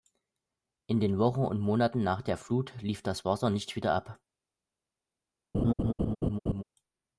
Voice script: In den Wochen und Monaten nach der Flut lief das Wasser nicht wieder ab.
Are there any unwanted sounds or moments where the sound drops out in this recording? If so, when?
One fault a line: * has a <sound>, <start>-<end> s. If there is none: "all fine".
* has a laugh, 5.5-6.6 s